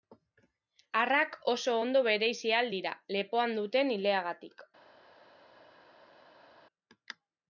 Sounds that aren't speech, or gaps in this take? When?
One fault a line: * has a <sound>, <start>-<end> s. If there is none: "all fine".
all fine